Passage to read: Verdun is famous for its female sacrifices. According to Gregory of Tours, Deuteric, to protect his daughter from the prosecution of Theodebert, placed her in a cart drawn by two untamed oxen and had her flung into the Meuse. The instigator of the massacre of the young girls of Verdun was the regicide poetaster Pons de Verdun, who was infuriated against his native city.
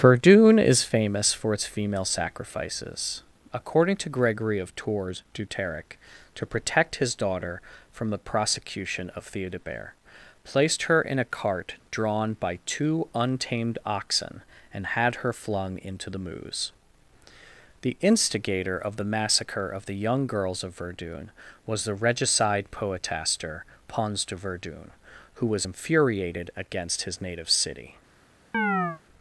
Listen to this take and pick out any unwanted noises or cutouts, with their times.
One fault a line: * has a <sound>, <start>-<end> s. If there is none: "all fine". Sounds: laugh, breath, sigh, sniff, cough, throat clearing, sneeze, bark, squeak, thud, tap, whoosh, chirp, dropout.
* has a chirp, 28.5-29.0 s